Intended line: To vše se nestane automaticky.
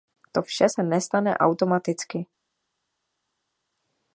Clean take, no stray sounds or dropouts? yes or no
yes